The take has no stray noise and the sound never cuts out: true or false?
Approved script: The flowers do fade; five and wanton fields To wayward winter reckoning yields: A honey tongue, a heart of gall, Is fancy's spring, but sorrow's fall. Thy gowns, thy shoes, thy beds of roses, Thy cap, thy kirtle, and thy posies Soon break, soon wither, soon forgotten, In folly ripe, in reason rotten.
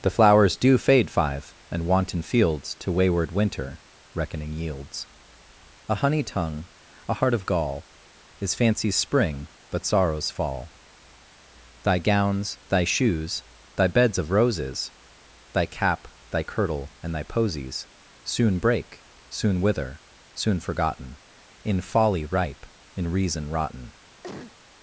false